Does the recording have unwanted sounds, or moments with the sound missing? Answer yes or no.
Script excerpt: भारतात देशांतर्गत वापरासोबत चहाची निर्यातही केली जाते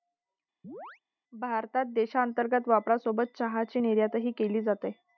yes